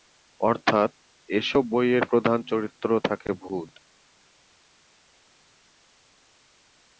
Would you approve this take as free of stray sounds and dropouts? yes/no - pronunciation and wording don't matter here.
yes